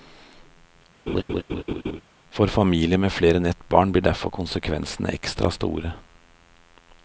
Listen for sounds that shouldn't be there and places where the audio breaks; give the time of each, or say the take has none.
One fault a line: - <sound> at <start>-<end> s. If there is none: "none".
- laugh at 1.1-2.0 s